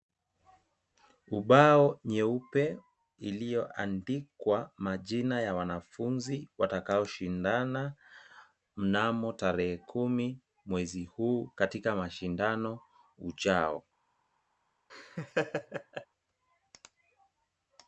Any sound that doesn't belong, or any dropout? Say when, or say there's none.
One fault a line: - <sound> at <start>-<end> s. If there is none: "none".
- laugh at 14.9-16.1 s